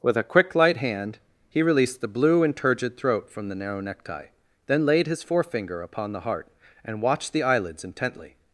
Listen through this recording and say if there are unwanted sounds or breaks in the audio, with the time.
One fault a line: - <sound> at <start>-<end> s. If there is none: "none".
none